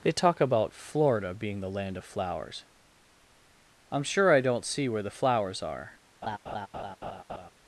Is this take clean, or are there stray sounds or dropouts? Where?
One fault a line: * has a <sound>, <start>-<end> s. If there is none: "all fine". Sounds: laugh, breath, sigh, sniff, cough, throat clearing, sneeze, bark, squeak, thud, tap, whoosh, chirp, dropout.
* has a laugh, 6.2-7.5 s